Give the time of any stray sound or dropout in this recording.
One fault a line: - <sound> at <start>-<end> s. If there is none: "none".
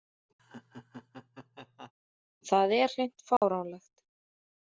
- laugh at 0.4-1.9 s
- dropout at 3.4-3.4 s